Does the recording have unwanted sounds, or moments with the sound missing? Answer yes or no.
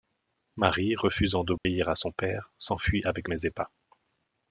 yes